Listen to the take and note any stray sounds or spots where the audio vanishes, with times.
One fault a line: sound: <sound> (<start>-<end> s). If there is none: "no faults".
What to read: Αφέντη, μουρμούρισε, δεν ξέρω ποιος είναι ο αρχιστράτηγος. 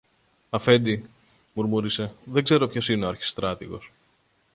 no faults